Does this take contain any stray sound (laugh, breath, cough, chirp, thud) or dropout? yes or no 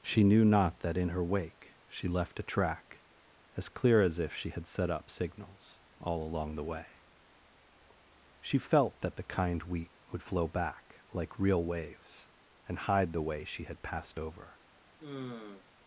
yes